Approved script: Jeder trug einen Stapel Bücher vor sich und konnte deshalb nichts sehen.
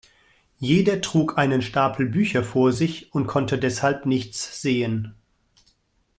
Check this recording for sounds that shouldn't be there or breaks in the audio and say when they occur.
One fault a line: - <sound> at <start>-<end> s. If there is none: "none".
none